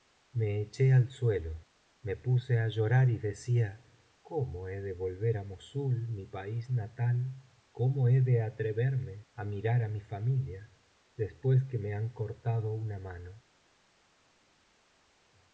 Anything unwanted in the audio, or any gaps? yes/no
no